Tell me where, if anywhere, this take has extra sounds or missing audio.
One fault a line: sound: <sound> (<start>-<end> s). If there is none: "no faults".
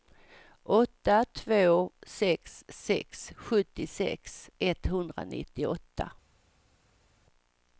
no faults